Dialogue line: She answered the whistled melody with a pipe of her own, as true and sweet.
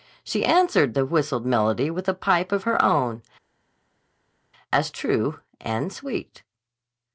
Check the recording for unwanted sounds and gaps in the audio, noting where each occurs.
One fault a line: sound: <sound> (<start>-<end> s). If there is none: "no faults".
no faults